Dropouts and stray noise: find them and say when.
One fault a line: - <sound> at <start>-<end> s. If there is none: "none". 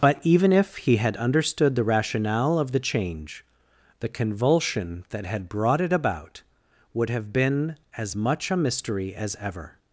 none